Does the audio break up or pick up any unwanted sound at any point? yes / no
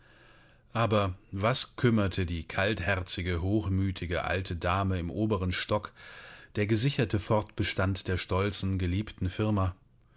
no